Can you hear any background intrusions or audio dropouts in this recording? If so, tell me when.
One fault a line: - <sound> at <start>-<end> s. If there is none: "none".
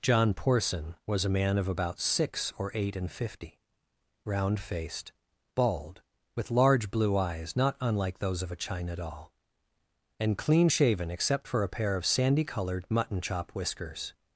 none